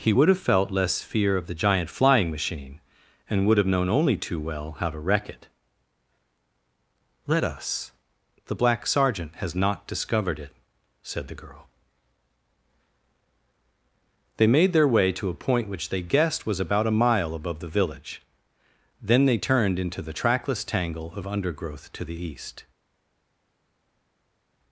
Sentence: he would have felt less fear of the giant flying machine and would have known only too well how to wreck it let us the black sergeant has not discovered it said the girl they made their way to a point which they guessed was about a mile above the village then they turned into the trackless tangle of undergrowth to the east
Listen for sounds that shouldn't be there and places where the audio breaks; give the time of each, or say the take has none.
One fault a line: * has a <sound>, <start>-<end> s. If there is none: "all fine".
all fine